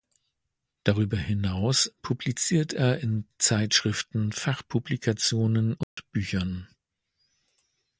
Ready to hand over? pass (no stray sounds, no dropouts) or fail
fail